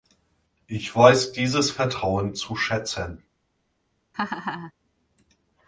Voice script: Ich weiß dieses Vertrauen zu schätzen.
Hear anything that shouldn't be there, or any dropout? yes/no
yes